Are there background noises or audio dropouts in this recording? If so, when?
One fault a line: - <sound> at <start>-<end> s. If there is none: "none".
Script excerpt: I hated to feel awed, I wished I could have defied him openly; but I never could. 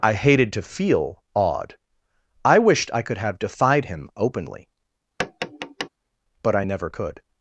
- tap at 5.2-5.9 s